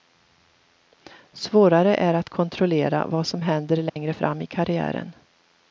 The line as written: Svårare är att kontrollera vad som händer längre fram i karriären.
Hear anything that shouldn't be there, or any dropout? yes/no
yes